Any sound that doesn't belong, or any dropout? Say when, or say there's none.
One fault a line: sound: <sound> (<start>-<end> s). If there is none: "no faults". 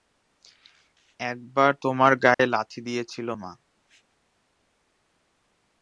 sound: dropout (2.3-2.4 s)